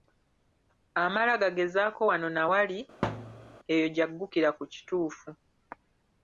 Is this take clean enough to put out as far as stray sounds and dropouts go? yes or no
no